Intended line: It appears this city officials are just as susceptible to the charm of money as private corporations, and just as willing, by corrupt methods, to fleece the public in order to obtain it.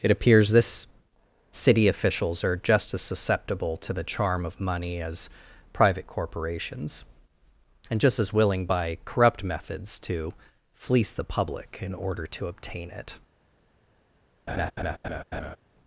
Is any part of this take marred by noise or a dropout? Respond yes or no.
yes